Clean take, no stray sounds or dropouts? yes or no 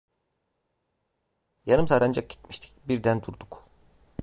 yes